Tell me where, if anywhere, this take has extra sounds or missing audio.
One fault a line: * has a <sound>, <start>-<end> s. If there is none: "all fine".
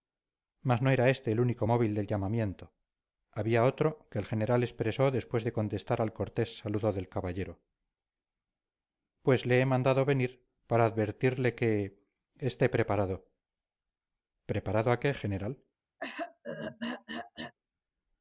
* has a throat clearing, 16.0-17.5 s